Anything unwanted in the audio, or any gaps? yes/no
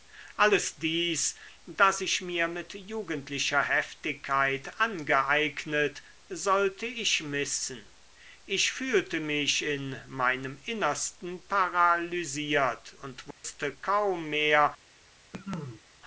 yes